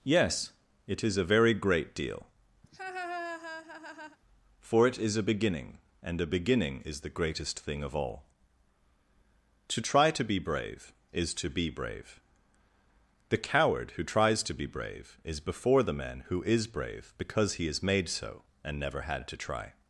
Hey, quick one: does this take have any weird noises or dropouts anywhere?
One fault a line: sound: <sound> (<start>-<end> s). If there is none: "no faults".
sound: laugh (2.6-4.2 s)